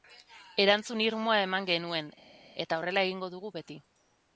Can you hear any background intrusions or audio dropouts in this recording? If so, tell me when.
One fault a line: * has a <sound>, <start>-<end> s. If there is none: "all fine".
all fine